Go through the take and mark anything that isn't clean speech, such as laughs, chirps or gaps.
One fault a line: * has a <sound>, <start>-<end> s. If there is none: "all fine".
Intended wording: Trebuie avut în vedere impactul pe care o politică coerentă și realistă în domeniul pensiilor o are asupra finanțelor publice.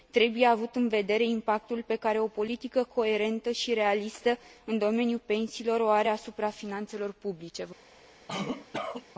* has a cough, 8.3-9.1 s